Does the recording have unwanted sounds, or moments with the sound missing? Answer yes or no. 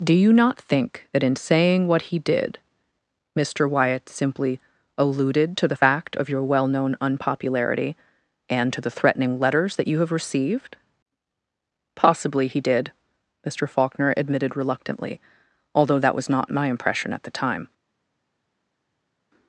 no